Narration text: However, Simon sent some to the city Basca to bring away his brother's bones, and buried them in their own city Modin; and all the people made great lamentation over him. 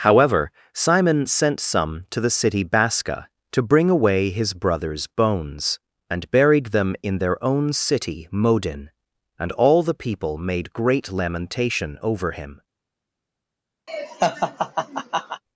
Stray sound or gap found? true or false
true